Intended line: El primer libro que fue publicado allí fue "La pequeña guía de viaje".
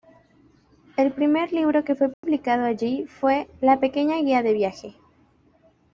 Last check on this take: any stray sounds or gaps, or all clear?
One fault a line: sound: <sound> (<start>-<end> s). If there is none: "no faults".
sound: dropout (2.1-2.2 s)